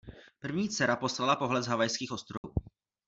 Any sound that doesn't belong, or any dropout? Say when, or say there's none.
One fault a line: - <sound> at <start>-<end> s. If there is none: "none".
- dropout at 2.4-2.4 s